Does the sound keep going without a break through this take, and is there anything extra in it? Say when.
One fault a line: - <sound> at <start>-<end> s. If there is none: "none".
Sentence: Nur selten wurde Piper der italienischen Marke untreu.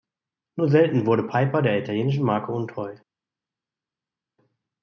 none